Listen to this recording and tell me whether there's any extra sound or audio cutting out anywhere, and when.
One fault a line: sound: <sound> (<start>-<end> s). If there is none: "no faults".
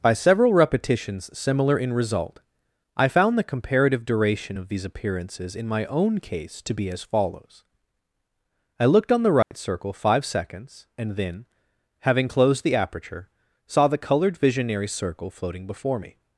sound: dropout (9.4-9.5 s)